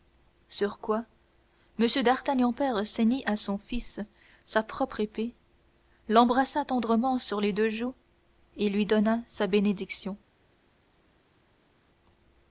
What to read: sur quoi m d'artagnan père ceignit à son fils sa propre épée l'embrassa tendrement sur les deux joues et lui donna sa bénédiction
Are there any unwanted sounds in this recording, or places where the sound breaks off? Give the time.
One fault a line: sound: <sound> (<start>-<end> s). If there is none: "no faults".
no faults